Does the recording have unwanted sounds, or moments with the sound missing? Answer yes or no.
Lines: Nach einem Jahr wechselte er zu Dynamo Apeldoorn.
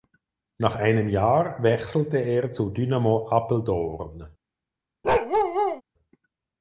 yes